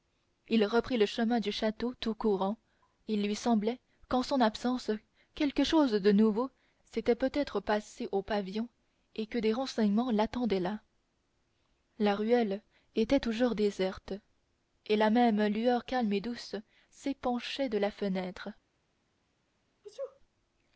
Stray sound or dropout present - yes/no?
yes